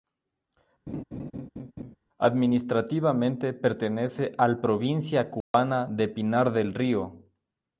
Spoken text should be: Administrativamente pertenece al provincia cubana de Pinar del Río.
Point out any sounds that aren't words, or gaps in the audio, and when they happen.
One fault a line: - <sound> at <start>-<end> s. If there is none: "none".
- laugh at 0.9-2.0 s
- dropout at 5.4-5.5 s